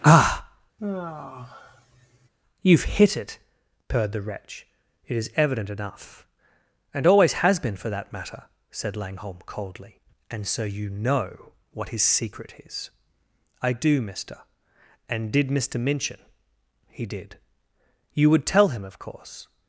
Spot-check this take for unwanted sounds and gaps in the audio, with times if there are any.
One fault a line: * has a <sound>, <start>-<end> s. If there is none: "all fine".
* has a sigh, 0.8-2.3 s